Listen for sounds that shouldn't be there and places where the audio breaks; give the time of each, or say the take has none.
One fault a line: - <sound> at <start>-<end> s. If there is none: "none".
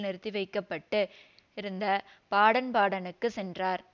none